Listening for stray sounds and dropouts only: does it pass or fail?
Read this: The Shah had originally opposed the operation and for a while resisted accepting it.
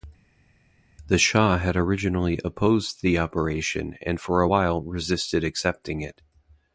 pass